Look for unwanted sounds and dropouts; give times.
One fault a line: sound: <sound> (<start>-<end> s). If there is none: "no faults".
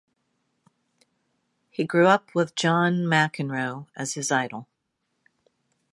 no faults